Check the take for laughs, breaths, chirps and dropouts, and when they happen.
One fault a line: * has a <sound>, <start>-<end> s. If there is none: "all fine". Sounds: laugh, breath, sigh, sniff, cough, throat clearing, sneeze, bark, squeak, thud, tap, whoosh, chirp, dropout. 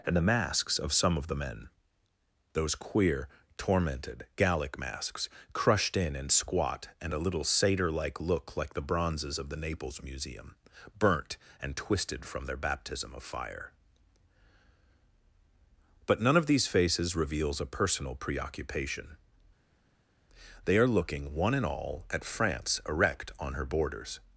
all fine